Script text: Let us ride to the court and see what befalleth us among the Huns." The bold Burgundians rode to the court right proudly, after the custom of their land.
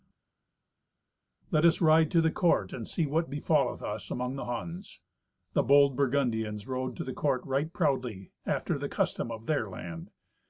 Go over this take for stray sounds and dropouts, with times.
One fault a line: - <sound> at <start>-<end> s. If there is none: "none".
none